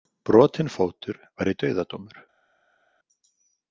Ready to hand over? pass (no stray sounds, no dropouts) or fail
pass